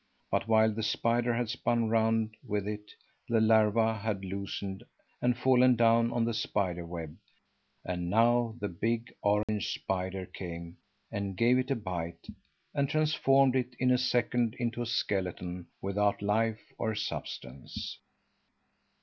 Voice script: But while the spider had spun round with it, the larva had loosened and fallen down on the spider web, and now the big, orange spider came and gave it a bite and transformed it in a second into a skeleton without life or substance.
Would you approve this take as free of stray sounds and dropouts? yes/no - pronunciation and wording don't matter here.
no